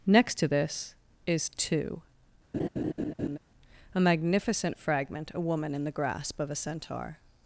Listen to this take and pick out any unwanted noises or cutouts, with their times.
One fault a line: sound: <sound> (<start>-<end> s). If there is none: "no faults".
sound: laugh (2.5-3.4 s)